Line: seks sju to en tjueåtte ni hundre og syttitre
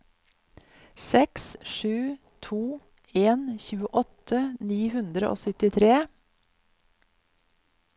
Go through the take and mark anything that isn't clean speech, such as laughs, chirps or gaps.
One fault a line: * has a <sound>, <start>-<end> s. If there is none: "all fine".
all fine